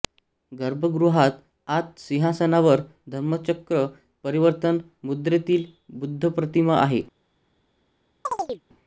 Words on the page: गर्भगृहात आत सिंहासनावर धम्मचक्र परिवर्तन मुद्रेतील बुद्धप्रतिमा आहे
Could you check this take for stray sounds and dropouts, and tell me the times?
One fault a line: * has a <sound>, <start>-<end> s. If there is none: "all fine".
* has a chirp, 8.2-8.6 s